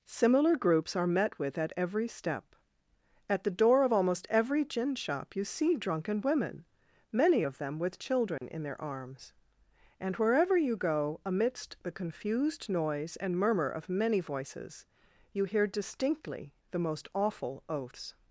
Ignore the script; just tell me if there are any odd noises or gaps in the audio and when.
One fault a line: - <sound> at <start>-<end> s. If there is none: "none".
- dropout at 8.4-8.4 s